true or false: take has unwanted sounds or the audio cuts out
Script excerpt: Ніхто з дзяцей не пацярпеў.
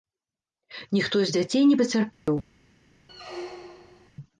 true